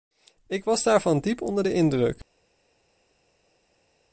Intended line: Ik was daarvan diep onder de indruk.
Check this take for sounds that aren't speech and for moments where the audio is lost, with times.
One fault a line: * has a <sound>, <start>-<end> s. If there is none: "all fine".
all fine